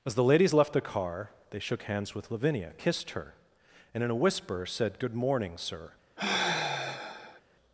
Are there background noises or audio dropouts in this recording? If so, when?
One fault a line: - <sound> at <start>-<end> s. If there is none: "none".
- sigh at 6.2-7.4 s